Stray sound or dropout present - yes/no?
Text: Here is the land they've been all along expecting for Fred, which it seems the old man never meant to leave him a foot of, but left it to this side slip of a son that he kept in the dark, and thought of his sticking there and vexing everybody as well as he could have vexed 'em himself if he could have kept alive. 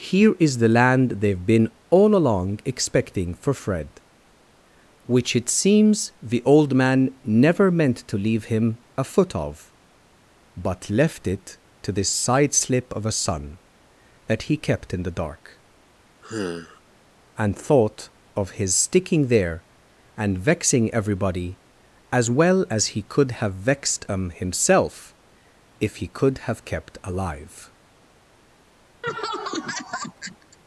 yes